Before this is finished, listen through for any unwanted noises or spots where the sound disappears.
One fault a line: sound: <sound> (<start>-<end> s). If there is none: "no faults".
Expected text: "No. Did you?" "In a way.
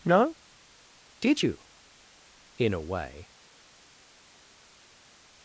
no faults